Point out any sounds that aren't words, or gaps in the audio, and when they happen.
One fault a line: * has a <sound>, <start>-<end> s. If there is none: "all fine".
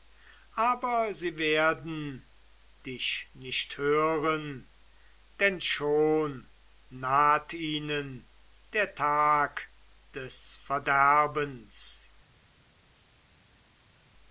all fine